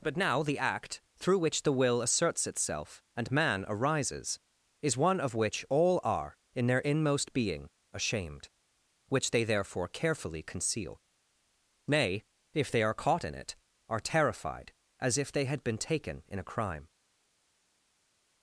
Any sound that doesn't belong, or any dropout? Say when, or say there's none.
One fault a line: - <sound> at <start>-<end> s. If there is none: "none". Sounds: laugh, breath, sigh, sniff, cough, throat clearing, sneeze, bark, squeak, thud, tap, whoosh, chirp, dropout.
none